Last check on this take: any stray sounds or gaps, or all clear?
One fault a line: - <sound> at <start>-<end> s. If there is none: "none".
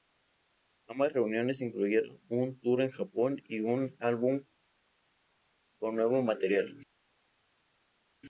none